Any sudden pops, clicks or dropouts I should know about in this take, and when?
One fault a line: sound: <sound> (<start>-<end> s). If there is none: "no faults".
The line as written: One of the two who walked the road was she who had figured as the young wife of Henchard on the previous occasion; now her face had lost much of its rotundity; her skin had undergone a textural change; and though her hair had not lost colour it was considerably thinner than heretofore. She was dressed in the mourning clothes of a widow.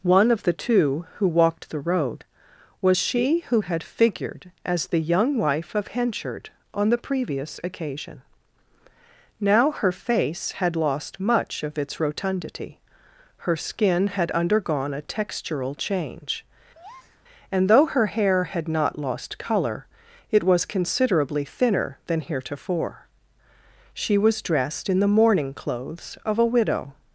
sound: breath (16.7-17.2 s)